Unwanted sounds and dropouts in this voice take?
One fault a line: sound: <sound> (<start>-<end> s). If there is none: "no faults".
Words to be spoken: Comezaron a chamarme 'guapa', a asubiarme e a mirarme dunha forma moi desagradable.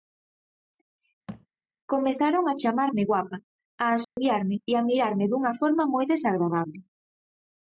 sound: thud (1.3-1.5 s)
sound: dropout (4.0-4.2 s)